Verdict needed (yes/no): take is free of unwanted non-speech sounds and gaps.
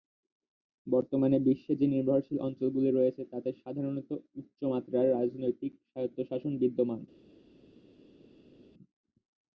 yes